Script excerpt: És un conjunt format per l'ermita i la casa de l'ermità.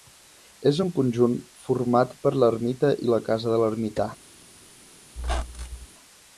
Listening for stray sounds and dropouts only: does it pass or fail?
fail